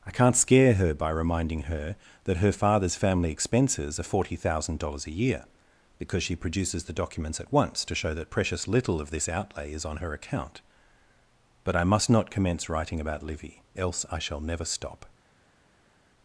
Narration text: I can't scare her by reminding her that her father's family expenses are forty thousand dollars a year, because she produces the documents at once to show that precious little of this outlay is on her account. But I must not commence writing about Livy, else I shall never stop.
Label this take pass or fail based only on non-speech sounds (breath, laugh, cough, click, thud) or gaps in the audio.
pass